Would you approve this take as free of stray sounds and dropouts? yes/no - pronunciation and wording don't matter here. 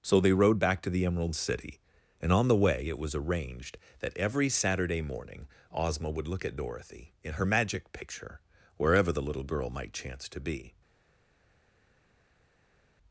yes